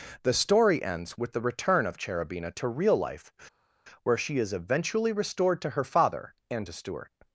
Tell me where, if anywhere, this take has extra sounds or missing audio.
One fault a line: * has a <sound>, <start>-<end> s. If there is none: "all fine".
all fine